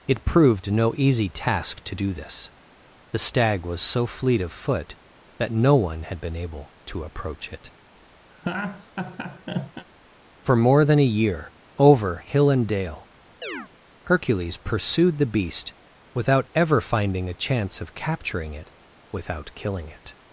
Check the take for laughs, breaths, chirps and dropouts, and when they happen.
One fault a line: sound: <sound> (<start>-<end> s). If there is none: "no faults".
sound: laugh (8.3-9.9 s)
sound: chirp (13.4-13.7 s)